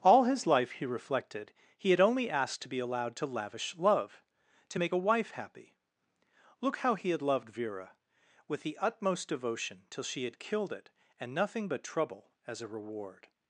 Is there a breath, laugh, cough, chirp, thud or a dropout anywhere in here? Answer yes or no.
no